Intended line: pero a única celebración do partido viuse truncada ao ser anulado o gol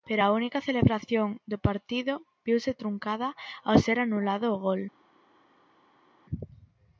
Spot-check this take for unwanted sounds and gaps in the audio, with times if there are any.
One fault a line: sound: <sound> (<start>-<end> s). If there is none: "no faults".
no faults